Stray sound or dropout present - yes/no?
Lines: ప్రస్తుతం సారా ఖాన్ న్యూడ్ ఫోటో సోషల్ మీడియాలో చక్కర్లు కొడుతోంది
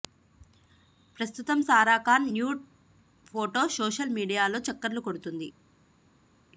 no